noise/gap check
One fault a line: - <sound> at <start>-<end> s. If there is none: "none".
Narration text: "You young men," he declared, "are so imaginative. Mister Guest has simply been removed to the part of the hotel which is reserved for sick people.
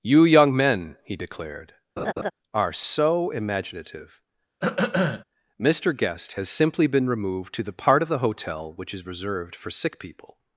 - laugh at 2.0-2.3 s
- throat clearing at 4.6-5.2 s